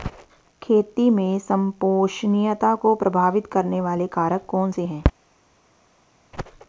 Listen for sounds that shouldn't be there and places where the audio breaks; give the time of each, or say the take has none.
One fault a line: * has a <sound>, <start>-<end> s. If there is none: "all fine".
all fine